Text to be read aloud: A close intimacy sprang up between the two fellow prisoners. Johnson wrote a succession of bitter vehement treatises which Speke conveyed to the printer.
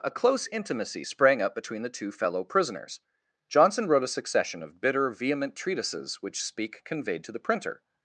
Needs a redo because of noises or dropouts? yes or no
no